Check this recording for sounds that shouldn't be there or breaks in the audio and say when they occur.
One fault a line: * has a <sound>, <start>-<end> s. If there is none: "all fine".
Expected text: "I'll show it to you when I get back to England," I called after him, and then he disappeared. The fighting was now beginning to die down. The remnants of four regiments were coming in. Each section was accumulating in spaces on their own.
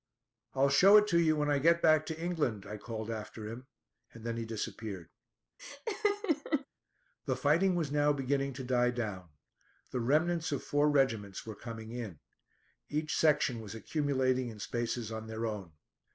* has a laugh, 5.6-6.7 s